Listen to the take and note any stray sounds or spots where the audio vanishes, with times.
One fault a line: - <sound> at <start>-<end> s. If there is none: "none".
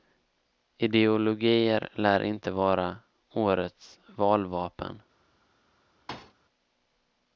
- thud at 6.1-6.3 s